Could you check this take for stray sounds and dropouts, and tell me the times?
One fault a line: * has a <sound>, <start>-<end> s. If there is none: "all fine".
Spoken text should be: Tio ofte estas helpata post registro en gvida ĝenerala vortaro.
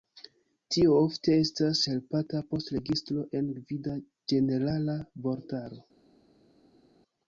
all fine